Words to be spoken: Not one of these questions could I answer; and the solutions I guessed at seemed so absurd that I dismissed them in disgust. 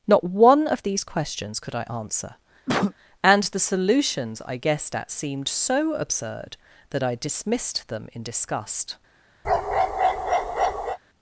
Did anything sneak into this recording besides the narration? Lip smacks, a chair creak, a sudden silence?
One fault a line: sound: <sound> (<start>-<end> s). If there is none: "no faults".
sound: cough (2.7-2.9 s)
sound: bark (9.4-11.0 s)